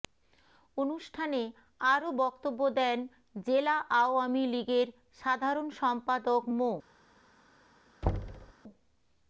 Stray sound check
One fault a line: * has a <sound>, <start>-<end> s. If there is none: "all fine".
* has a thud, 8.0-8.5 s